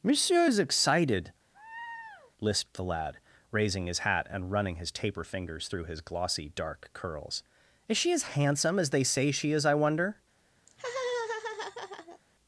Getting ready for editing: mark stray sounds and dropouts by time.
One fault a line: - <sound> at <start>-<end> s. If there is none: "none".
- laugh at 1.5-2.3 s
- laugh at 10.7-12.2 s